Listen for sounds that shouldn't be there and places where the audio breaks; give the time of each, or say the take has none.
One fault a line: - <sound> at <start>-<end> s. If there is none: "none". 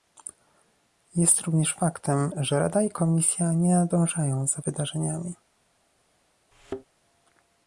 - thud at 6.5-6.9 s